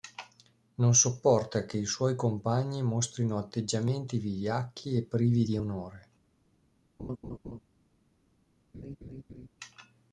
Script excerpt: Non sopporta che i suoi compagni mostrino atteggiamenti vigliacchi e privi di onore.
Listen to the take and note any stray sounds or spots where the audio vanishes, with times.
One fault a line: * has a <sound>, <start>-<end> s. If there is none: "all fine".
* has a laugh, 7.0-7.6 s
* has a laugh, 8.7-9.5 s